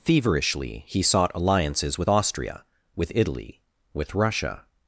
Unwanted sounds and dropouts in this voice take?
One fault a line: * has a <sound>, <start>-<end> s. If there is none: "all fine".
all fine